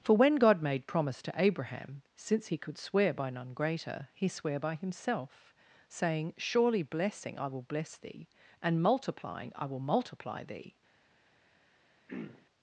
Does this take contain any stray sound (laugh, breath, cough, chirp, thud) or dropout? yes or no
yes